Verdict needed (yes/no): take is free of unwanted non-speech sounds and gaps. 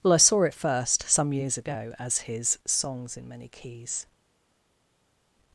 yes